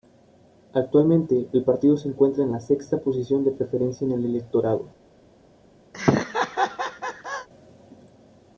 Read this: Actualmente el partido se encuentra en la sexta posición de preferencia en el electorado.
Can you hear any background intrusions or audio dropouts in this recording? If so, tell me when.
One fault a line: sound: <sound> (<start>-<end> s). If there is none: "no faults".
sound: laugh (5.9-7.5 s)